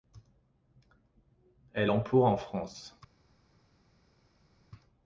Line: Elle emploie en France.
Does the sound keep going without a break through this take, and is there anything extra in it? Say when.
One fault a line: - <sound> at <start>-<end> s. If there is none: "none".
none